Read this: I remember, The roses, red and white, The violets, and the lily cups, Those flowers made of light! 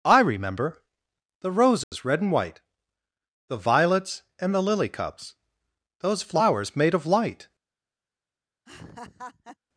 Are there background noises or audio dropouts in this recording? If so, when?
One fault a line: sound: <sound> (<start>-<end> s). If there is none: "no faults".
sound: dropout (1.8-1.9 s)
sound: laugh (8.7-9.6 s)